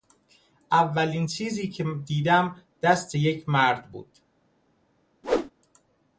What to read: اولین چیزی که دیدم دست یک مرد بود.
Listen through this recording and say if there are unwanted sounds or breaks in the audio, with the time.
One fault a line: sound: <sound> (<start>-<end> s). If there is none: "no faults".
sound: whoosh (5.2-5.5 s)